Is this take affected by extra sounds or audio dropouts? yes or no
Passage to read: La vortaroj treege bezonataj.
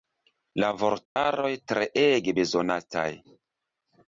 yes